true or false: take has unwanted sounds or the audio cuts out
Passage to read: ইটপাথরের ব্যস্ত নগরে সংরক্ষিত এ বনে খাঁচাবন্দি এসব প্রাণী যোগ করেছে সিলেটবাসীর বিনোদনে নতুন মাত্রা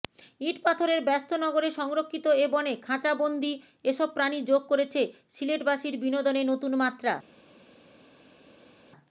false